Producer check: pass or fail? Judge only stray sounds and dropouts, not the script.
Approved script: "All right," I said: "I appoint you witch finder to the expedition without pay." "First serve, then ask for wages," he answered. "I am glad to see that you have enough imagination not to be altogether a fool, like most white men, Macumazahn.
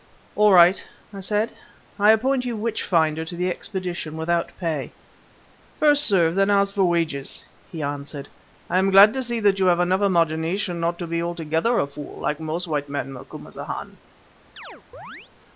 fail